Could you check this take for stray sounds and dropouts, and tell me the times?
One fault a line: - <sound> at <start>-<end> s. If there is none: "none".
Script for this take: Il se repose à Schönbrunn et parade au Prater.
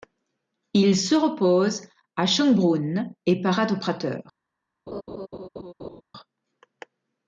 - laugh at 4.9-6.0 s